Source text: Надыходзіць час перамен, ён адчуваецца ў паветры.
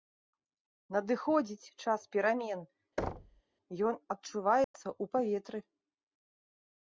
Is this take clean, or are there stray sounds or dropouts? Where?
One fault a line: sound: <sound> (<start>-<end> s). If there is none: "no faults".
sound: thud (3.0-3.4 s)
sound: dropout (4.6-4.7 s)